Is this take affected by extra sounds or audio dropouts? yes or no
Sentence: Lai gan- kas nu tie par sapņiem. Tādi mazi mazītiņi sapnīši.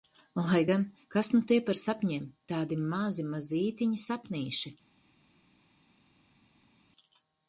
no